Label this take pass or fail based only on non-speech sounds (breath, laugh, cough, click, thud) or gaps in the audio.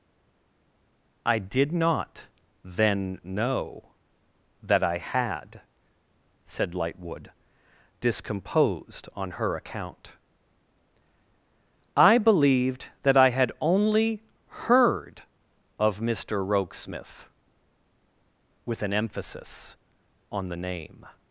pass